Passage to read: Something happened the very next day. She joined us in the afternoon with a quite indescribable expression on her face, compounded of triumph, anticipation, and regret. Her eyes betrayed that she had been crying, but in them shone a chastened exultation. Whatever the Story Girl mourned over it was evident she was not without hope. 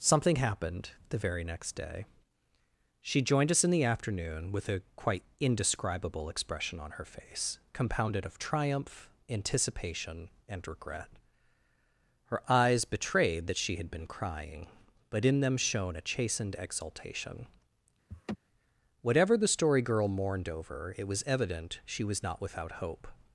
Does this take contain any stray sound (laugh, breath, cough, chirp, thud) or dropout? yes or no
yes